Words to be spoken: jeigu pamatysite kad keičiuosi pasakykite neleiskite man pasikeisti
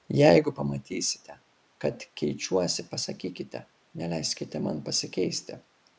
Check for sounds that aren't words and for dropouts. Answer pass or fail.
pass